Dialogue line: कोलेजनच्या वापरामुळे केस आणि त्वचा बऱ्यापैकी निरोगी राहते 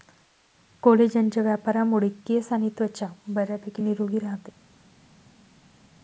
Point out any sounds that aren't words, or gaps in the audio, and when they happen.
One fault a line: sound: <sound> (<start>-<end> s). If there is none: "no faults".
no faults